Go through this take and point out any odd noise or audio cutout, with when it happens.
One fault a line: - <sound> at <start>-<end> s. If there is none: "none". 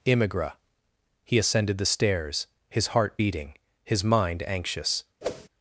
- whoosh at 5.2-5.5 s